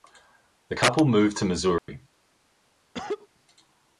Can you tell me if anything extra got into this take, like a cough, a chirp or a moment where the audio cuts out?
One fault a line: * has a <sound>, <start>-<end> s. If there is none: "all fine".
* has a dropout, 1.8-1.9 s
* has a cough, 2.9-3.3 s